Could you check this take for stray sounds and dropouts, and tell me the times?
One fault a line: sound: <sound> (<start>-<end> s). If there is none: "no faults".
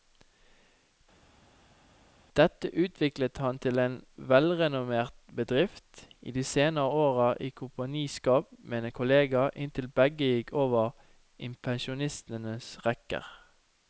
no faults